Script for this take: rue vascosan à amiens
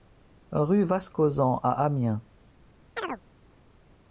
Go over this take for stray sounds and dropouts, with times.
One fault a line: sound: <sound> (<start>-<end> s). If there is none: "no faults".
sound: chirp (3.0-3.2 s)